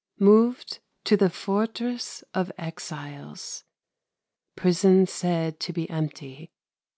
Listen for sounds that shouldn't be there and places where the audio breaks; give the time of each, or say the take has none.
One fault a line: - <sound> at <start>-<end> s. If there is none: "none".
none